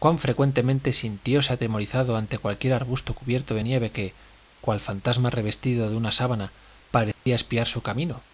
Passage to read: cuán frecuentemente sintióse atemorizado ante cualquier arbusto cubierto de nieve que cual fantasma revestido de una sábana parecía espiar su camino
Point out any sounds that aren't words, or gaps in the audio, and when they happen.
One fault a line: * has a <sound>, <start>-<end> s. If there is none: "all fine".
* has a dropout, 7.1-7.3 s